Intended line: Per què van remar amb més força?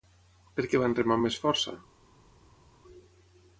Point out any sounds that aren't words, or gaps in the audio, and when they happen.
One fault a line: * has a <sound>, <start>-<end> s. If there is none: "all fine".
all fine